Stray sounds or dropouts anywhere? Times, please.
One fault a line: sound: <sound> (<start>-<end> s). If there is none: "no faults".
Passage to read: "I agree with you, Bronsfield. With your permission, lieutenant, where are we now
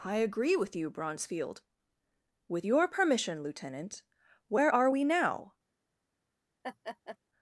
sound: laugh (6.6-7.2 s)